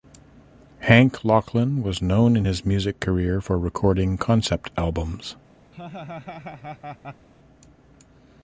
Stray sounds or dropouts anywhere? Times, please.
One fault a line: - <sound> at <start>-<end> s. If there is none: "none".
- laugh at 5.7-7.3 s